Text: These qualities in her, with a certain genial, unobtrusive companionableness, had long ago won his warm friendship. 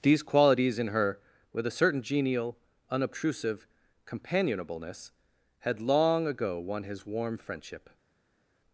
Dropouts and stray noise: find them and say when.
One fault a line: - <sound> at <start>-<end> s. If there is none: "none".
none